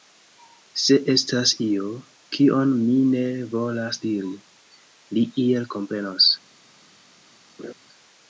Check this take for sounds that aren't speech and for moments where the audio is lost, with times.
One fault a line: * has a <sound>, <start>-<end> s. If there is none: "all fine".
* has a laugh, 7.6-7.7 s